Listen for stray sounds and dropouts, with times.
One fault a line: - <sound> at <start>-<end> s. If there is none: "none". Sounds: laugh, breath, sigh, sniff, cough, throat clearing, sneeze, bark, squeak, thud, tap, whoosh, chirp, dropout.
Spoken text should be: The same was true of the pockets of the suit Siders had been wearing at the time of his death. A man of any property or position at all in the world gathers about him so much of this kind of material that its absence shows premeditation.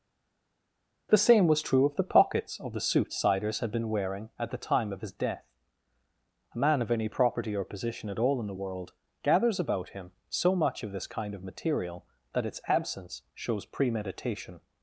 none